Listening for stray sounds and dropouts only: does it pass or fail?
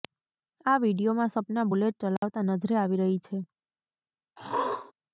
fail